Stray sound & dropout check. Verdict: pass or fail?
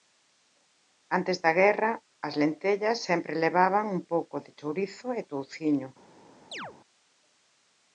fail